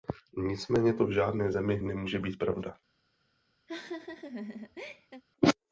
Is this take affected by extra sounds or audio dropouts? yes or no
yes